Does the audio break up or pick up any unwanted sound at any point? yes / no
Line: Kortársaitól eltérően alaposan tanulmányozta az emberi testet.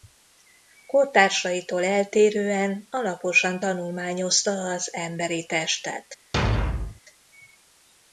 yes